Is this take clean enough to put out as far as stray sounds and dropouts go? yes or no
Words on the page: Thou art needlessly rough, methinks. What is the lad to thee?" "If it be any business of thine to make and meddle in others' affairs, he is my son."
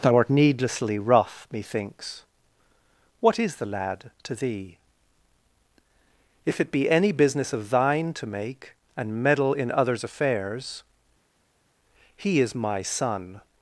yes